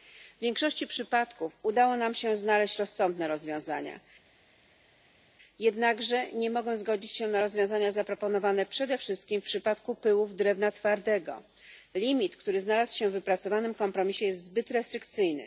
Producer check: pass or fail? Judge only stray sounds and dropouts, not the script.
pass